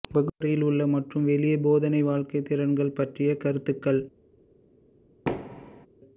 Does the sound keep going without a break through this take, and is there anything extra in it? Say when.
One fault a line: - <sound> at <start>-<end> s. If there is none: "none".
- thud at 5.3-5.9 s